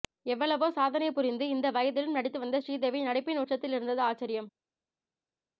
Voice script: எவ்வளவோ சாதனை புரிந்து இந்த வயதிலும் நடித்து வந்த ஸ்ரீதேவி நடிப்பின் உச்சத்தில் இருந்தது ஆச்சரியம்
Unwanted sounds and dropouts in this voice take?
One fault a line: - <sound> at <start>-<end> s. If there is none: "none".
none